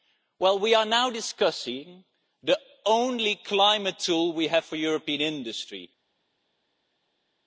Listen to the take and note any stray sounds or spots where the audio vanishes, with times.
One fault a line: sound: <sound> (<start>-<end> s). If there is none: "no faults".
no faults